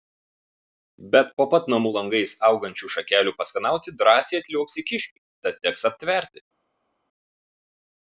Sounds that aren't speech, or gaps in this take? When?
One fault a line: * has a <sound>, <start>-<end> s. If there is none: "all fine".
all fine